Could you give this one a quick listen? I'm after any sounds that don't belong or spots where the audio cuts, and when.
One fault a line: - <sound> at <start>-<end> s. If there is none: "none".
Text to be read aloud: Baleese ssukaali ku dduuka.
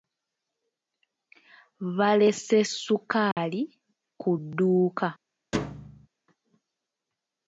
- dropout at 3.3-3.4 s
- thud at 5.5-6.1 s